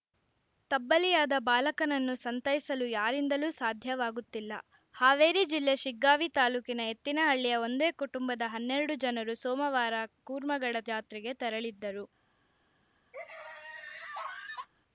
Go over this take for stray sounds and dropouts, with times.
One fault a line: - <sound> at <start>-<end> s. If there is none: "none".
- laugh at 13.1-14.7 s